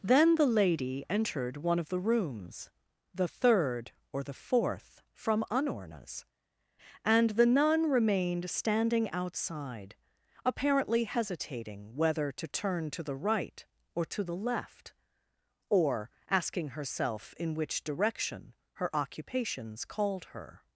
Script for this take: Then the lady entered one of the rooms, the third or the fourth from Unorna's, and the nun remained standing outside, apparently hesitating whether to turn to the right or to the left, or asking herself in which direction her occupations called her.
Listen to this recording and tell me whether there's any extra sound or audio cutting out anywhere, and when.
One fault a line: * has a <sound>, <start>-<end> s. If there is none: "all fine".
all fine